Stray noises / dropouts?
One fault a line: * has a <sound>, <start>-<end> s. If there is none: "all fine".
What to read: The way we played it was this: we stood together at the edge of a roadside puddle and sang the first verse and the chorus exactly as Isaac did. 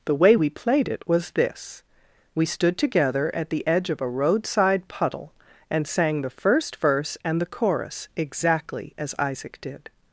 all fine